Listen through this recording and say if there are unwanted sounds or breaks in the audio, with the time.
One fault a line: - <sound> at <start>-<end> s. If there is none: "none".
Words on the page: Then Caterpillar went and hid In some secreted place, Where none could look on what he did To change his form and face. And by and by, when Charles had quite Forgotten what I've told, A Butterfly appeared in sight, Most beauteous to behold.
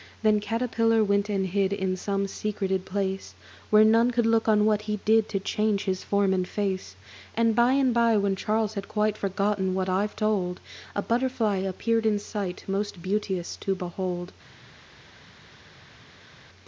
none